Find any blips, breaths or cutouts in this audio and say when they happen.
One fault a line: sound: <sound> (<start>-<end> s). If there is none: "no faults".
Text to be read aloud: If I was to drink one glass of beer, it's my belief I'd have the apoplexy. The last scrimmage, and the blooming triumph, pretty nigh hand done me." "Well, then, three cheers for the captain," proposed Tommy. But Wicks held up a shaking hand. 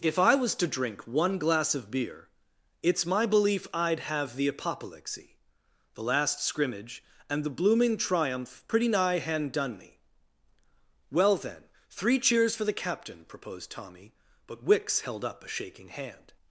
no faults